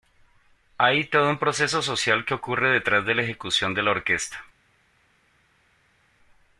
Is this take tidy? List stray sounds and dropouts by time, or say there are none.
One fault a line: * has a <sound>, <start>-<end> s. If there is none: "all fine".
all fine